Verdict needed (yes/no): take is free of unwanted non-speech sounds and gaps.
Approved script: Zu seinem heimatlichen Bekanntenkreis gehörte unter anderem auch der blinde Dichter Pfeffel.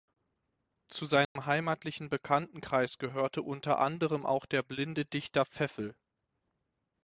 no